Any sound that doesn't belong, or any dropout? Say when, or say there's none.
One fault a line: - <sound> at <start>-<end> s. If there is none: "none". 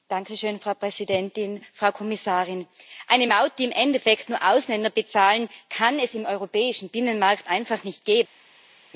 none